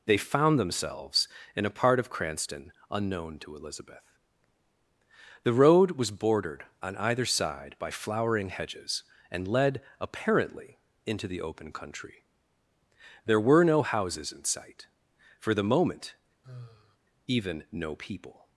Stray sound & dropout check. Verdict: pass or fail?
fail